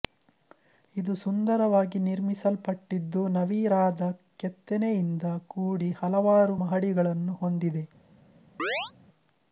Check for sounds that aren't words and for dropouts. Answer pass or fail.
fail